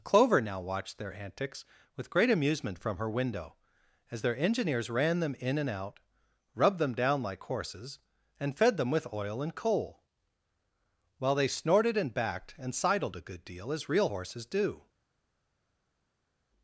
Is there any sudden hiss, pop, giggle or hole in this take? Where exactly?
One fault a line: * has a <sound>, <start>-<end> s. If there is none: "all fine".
all fine